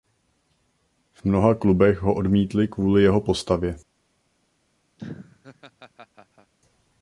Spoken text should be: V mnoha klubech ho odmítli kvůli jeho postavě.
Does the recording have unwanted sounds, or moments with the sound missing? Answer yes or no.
yes